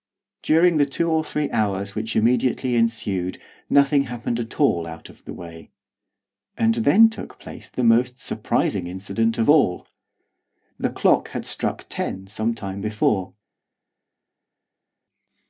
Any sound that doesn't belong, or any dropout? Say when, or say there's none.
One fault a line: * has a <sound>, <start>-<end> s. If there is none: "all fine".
all fine